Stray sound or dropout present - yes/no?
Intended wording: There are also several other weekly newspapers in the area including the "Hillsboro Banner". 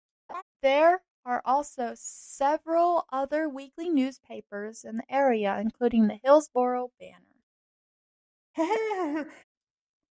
yes